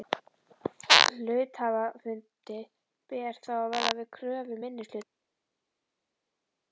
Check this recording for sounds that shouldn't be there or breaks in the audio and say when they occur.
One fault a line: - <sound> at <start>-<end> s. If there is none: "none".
none